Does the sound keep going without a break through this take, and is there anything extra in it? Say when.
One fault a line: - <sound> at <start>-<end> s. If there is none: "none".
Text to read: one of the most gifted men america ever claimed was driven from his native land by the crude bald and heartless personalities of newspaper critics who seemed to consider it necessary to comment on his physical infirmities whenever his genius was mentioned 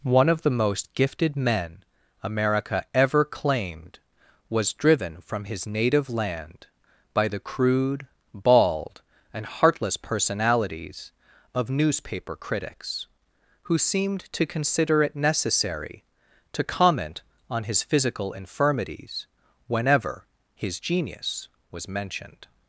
none